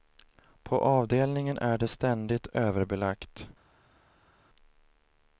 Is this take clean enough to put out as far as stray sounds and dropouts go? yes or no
yes